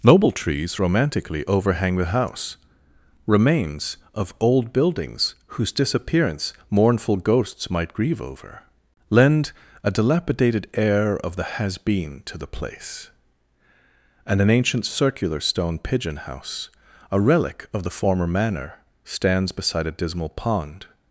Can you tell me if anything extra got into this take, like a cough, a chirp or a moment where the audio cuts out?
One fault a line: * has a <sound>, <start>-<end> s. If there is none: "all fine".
all fine